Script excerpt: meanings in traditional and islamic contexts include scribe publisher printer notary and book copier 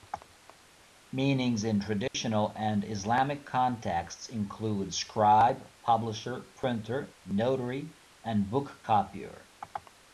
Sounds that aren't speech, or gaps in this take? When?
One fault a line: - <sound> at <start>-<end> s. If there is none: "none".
- dropout at 2.1-2.1 s